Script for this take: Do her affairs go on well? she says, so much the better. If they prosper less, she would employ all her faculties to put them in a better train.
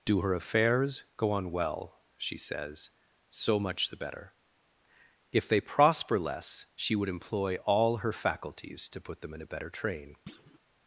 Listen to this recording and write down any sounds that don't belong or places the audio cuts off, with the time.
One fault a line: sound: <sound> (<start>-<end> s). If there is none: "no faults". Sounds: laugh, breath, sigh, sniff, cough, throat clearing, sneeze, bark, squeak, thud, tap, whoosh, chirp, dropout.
sound: thud (10.3-10.6 s)